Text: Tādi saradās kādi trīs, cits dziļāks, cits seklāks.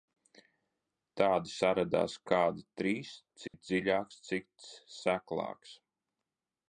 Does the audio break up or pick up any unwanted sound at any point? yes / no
yes